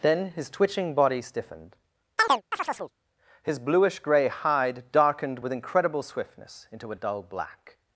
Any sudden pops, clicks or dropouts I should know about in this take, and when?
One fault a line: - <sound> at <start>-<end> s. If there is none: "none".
- chirp at 2.2-2.9 s